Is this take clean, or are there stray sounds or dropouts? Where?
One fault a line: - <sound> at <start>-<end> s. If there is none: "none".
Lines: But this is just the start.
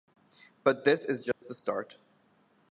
- dropout at 1.3-1.4 s